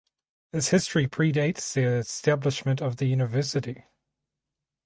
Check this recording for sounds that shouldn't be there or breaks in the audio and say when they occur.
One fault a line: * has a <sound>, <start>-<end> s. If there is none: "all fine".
all fine